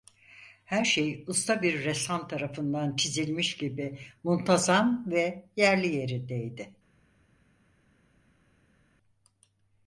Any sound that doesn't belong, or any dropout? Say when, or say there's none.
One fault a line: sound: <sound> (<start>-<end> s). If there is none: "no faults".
no faults